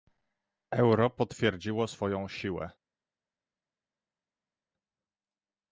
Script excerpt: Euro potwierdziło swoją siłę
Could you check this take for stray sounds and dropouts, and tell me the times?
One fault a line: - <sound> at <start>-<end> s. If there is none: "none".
none